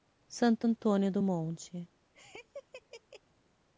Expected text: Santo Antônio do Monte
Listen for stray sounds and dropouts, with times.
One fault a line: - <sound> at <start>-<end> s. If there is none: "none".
- laugh at 2.1-3.2 s